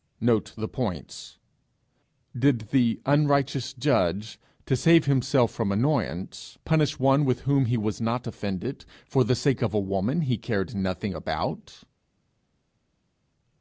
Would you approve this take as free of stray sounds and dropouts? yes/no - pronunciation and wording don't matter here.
yes